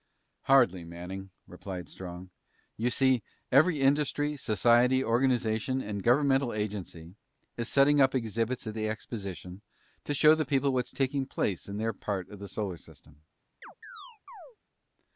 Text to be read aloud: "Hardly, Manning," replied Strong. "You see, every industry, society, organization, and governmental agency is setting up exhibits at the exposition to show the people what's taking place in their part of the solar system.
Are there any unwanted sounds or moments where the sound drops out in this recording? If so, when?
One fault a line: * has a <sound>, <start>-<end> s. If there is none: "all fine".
* has a chirp, 13.6-14.6 s